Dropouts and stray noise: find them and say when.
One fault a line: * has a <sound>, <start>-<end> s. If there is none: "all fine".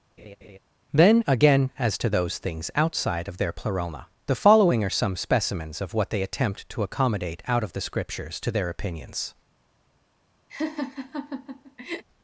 * has a laugh, 0.2-0.6 s
* has a laugh, 10.5-12.0 s